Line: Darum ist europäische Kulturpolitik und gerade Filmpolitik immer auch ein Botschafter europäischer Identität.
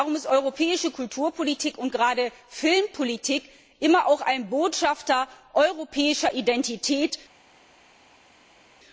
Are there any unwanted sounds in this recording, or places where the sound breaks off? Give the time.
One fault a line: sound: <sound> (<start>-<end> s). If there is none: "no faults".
no faults